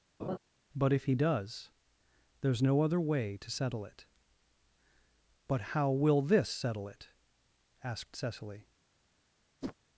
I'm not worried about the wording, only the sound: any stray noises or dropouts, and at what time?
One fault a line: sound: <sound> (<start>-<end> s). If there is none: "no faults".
sound: laugh (0.2-0.4 s)
sound: whoosh (9.6-9.8 s)